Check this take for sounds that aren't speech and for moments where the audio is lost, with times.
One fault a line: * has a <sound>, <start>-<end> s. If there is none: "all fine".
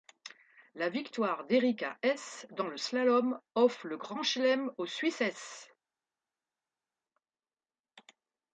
all fine